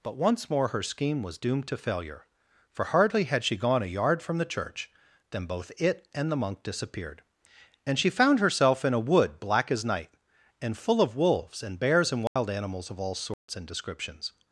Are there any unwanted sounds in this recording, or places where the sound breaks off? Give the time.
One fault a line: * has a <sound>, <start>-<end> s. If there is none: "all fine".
* has a dropout, 12.3-12.4 s
* has a dropout, 13.3-13.5 s